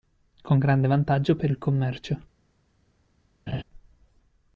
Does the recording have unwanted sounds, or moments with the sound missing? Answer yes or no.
yes